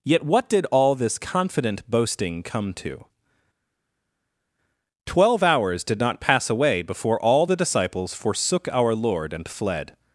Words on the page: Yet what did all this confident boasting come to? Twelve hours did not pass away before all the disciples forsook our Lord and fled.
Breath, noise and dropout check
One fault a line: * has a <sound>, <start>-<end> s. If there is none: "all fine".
all fine